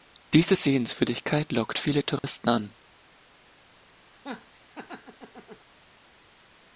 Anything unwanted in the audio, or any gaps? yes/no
yes